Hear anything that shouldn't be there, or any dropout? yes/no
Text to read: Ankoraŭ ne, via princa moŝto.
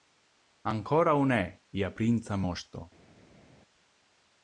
no